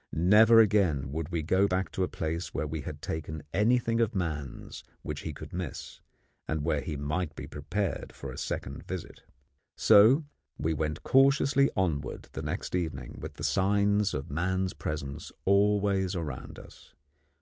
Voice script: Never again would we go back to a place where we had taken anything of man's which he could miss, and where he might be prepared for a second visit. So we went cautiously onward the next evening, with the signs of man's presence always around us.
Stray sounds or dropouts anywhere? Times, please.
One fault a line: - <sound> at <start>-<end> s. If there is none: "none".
none